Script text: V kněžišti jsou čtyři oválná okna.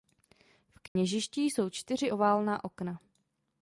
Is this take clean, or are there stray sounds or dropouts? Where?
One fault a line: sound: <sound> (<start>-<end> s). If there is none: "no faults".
sound: dropout (0.9-1.0 s)